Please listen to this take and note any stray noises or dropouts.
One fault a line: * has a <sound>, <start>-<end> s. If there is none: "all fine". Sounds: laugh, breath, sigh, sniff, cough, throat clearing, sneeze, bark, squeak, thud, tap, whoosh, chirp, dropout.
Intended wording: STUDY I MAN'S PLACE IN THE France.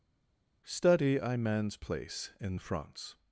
all fine